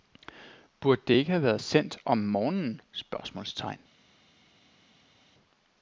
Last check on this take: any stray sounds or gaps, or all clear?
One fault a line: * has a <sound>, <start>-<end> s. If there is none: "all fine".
all fine